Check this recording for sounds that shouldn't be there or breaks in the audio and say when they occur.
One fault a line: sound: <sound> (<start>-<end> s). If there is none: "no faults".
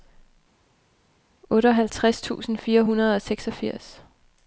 no faults